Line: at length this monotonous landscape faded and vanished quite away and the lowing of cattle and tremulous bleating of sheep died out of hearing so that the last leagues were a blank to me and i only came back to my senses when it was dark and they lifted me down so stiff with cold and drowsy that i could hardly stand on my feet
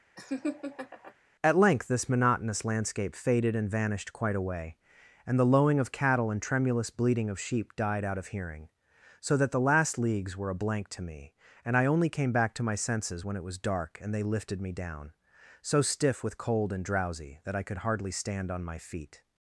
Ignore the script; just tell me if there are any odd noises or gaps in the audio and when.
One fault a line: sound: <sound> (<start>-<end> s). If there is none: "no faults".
sound: laugh (0.2-1.1 s)